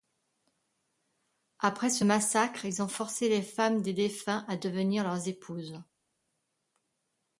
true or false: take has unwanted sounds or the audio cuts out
false